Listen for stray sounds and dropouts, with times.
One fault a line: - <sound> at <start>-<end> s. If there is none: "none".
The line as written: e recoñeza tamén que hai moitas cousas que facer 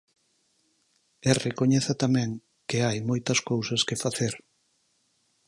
none